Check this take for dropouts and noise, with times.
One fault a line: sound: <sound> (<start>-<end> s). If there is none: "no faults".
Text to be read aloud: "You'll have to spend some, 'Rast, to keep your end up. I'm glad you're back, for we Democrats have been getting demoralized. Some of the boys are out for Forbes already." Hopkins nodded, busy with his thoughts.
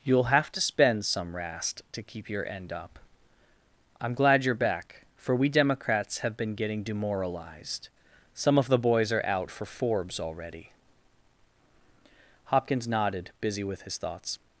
no faults